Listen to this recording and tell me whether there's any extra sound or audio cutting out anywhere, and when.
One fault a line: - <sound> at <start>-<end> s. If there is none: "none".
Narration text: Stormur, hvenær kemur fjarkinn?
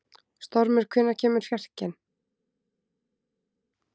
none